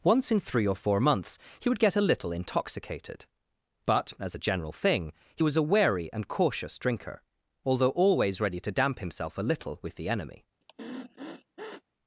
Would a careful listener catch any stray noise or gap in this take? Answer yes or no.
yes